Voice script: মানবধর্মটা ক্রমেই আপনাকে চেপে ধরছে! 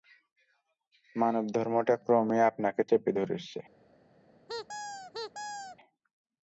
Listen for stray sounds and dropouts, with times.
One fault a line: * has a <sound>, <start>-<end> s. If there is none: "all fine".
* has a squeak, 4.5-5.8 s